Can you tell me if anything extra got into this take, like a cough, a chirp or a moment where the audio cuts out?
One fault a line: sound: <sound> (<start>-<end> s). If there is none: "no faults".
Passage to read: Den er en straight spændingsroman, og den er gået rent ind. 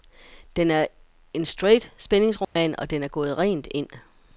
sound: dropout (2.4-2.6 s)